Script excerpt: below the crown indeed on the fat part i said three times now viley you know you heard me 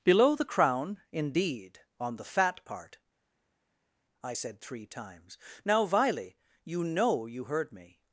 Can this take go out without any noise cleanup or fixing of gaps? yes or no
yes